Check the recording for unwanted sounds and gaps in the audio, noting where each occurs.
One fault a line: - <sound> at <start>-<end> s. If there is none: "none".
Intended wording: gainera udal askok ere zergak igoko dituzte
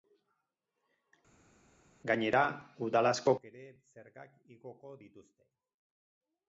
none